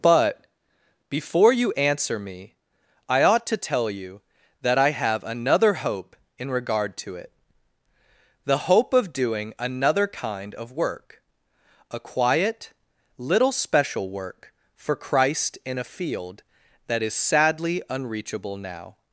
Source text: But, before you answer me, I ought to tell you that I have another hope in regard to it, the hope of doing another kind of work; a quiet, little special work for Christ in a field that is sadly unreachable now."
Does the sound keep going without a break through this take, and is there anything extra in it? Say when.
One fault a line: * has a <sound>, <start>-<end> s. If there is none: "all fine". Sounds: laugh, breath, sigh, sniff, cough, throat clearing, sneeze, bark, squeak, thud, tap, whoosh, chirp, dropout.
all fine